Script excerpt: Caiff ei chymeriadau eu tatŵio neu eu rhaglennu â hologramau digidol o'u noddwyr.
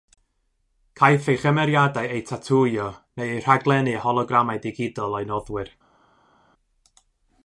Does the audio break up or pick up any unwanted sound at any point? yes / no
no